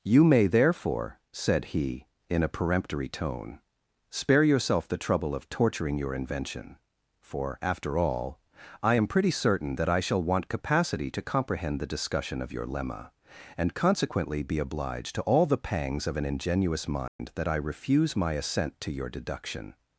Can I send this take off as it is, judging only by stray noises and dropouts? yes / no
no